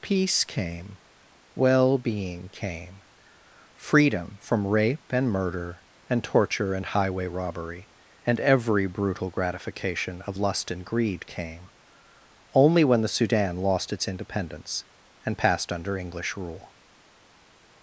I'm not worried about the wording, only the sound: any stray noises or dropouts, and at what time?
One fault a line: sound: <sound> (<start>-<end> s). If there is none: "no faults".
no faults